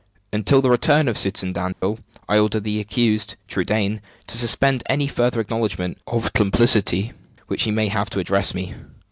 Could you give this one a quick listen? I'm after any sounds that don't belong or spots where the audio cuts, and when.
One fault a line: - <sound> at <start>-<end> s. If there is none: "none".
- dropout at 1.7-1.8 s